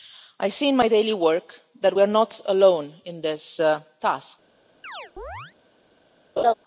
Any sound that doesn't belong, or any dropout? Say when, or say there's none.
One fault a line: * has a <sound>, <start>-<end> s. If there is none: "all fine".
* has a chirp, 4.8-5.5 s
* has a laugh, 6.4-6.5 s